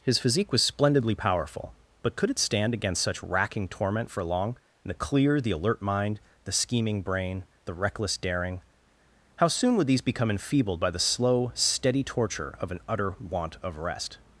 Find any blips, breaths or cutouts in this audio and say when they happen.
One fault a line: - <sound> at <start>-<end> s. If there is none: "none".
none